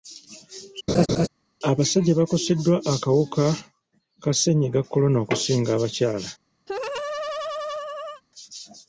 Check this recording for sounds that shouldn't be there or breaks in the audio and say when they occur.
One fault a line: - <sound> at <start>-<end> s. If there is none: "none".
- laugh at 0.9-1.3 s
- laugh at 6.7-8.2 s